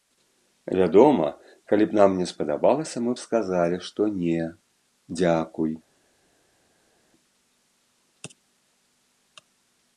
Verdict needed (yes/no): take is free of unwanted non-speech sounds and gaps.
yes